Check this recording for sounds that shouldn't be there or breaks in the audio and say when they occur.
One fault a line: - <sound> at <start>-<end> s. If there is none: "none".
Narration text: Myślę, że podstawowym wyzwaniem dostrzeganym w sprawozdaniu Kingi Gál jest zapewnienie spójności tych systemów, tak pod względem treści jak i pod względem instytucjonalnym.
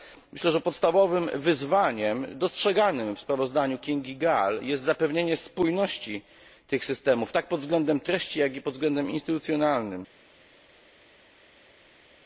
none